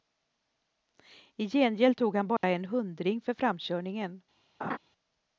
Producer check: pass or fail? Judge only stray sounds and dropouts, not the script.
fail